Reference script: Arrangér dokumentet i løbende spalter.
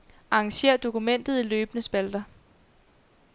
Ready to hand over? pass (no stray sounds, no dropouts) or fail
pass